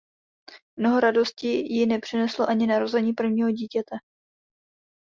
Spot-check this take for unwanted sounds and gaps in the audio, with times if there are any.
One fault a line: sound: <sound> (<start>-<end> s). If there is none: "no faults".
no faults